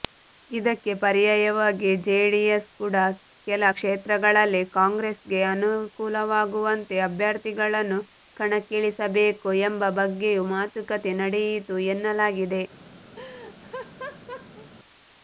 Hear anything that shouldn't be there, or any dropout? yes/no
yes